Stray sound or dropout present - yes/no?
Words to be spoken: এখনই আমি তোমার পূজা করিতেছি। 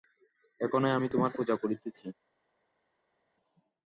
no